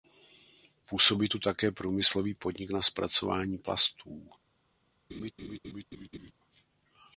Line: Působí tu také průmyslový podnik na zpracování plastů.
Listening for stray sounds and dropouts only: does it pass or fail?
fail